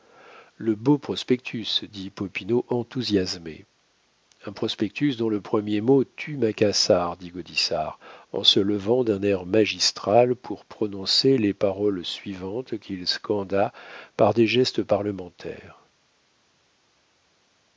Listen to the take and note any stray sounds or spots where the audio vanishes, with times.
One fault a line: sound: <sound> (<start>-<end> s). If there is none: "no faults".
no faults